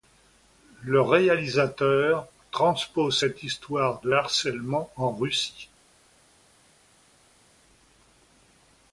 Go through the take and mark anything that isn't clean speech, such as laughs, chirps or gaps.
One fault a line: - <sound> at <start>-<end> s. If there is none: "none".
none